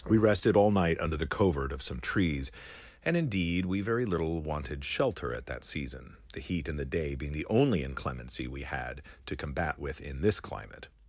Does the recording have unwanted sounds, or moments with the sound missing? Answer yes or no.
no